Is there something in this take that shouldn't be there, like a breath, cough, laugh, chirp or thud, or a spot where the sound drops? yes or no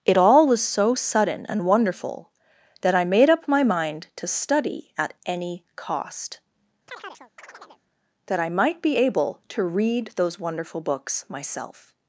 yes